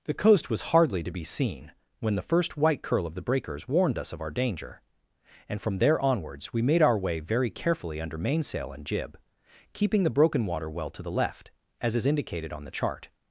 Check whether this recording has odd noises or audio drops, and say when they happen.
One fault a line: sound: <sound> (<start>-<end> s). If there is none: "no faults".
no faults